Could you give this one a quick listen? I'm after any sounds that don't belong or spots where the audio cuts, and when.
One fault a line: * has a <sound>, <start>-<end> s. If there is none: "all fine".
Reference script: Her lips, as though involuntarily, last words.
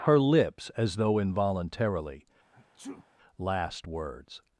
* has a sneeze, 2.5-3.1 s